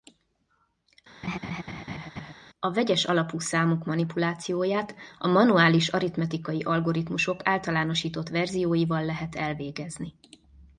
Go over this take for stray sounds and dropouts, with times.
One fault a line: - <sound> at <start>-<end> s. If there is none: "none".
- laugh at 1.2-2.3 s